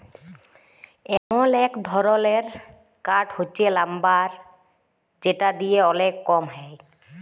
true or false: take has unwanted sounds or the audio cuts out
true